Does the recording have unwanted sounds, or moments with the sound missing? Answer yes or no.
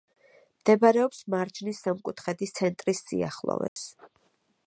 yes